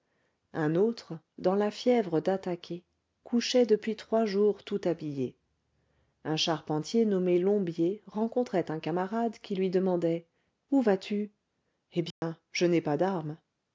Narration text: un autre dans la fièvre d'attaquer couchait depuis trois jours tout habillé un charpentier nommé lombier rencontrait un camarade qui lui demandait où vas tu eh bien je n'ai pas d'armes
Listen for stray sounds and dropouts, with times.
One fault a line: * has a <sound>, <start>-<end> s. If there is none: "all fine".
* has a dropout, 12.1-12.2 s